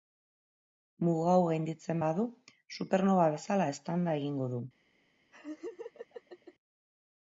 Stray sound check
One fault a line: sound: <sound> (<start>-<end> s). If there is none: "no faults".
sound: laugh (5.3-6.5 s)